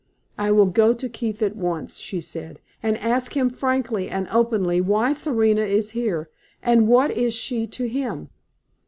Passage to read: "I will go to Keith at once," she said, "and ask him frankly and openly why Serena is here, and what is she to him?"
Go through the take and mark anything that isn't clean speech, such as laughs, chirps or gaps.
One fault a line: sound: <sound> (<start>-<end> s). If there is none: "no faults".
no faults